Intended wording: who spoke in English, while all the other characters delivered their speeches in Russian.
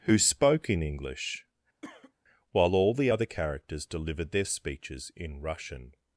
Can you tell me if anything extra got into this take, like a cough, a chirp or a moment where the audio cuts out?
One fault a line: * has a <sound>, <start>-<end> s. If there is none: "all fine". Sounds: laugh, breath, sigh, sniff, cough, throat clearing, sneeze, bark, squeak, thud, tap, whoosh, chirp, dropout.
* has a cough, 1.8-2.1 s